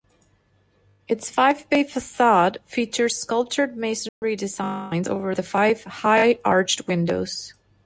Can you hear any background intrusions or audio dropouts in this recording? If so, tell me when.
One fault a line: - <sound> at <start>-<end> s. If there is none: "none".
- dropout at 4.1-4.2 s